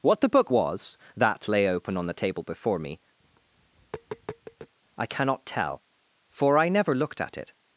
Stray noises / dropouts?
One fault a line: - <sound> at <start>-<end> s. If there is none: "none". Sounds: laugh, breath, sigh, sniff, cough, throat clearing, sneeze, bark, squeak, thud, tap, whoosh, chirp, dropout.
- tap at 3.2-4.7 s